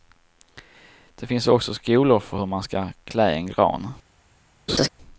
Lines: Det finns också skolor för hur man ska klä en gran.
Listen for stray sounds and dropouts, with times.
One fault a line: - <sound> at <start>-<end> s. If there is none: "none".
- laugh at 4.7-4.9 s